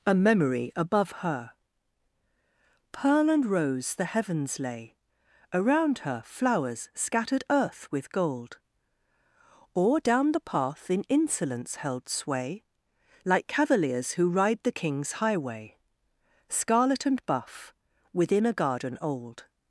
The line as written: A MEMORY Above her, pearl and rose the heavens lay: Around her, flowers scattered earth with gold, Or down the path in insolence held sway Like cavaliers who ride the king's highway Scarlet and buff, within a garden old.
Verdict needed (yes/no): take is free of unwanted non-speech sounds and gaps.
yes